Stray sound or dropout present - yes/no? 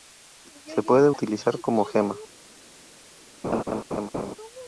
yes